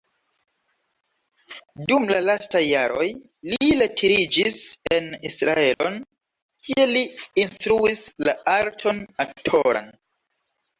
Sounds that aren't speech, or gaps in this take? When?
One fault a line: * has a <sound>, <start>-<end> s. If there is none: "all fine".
* has a dropout, 5.7-5.8 s